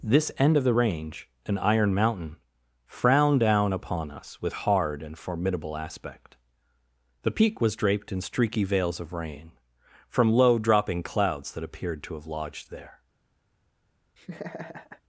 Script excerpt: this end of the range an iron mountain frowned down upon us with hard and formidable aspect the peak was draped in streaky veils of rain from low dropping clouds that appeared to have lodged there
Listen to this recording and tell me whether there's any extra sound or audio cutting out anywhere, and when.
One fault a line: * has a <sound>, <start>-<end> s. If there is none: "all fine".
* has a laugh, 14.2-15.0 s